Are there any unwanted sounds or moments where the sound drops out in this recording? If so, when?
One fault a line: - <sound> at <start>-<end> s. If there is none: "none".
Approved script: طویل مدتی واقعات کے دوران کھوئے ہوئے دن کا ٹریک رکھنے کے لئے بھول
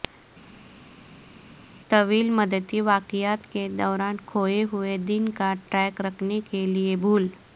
none